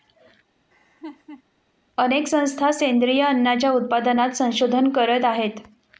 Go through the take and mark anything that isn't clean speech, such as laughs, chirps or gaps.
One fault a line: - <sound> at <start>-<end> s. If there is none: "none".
- laugh at 0.7-1.4 s